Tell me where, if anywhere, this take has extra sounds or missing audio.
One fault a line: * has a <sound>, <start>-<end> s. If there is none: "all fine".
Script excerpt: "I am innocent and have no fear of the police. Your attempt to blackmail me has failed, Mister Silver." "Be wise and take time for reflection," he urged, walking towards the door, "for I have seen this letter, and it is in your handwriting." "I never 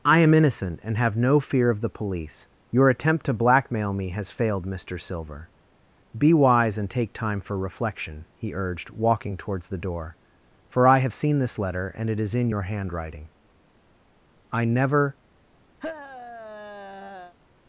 * has a sigh, 15.8-17.4 s